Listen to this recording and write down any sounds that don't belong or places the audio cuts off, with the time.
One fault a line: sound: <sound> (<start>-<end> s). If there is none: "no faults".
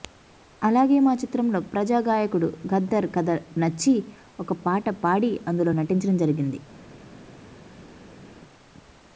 no faults